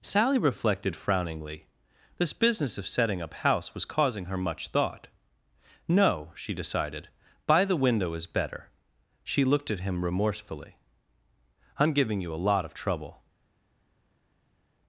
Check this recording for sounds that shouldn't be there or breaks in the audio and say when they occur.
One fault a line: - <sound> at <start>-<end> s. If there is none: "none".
none